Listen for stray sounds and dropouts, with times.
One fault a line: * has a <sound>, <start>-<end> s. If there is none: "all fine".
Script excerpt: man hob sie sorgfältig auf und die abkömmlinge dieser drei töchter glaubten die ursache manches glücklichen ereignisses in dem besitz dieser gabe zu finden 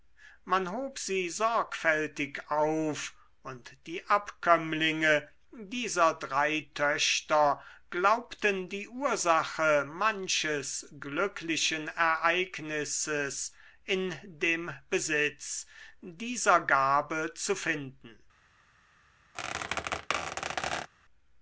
* has a squeak, 19.3-20.9 s